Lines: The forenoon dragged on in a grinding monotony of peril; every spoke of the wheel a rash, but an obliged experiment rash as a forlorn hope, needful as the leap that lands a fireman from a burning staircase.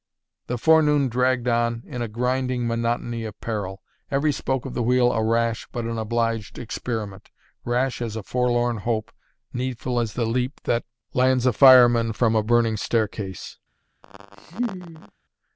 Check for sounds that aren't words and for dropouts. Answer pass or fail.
fail